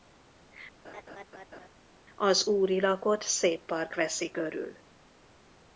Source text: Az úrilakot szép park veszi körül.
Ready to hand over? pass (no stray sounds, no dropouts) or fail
fail